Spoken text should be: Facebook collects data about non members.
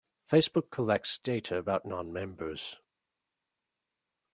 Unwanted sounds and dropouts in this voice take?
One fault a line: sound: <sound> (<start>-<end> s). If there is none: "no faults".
no faults